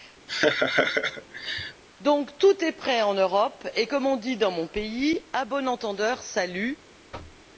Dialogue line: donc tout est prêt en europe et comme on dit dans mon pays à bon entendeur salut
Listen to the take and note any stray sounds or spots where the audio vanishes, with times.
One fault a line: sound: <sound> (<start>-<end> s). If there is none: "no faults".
sound: laugh (0.3-1.8 s)
sound: thud (7.1-7.5 s)